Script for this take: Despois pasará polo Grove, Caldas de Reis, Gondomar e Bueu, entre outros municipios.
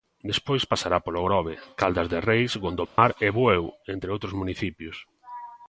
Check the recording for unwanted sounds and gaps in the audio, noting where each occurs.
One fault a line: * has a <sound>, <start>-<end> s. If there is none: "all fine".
* has a dropout, 2.9-3.0 s